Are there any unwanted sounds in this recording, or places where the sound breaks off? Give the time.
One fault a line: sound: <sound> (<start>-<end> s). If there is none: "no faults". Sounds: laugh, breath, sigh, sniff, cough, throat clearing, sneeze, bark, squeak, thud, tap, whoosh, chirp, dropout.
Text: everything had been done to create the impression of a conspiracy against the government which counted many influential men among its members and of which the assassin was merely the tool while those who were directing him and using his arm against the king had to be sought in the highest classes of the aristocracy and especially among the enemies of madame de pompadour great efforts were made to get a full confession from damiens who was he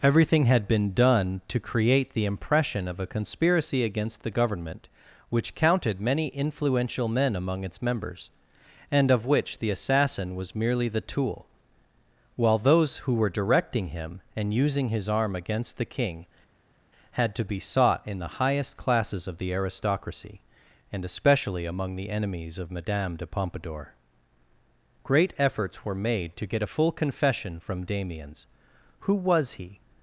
no faults